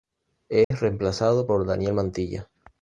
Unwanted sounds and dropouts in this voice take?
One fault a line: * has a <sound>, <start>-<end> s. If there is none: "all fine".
* has a dropout, 0.6-0.7 s